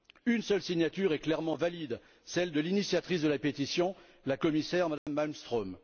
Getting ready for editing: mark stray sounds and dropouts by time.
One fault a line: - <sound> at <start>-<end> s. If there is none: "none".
- dropout at 5.0-5.1 s